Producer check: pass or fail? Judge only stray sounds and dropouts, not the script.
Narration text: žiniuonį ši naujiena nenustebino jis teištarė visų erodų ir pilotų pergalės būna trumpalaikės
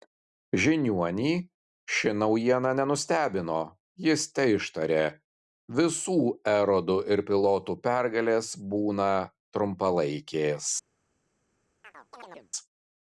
fail